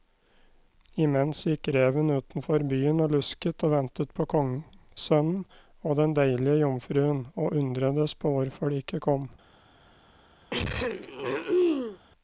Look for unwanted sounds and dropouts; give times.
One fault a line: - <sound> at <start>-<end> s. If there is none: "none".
- throat clearing at 10.5-12.0 s